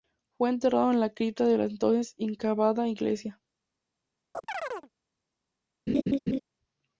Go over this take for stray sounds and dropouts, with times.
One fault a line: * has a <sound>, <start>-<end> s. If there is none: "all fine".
* has a chirp, 4.3-4.9 s
* has a laugh, 5.9-6.4 s